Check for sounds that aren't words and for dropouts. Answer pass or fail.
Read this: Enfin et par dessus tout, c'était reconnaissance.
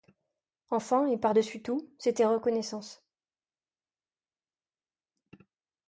pass